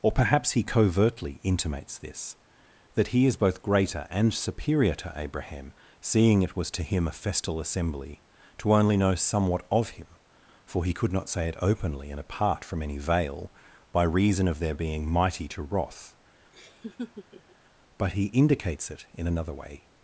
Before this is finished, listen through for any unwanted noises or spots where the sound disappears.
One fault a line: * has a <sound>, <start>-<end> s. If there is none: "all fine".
* has a laugh, 16.5-17.6 s